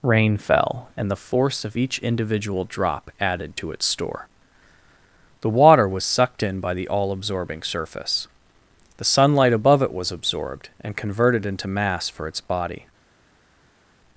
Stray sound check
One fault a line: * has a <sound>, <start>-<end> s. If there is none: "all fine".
all fine